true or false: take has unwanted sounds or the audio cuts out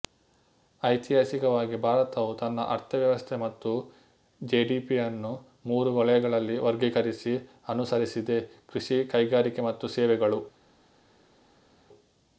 false